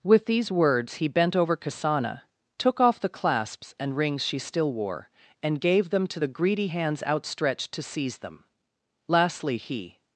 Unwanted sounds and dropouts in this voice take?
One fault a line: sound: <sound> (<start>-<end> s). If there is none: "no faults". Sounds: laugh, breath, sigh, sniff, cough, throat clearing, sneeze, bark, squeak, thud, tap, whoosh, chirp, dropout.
no faults